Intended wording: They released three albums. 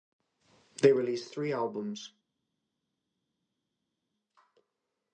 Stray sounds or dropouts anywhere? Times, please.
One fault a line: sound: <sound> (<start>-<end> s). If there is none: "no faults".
no faults